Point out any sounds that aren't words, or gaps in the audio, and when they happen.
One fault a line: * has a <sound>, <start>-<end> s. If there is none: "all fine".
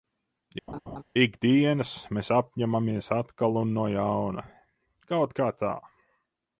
* has a laugh, 0.7-1.0 s